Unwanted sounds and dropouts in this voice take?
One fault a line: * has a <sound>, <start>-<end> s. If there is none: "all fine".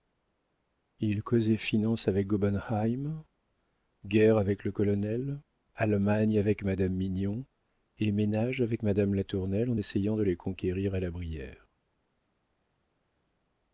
all fine